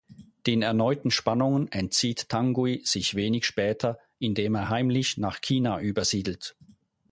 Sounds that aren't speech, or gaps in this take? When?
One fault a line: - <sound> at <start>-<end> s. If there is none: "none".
none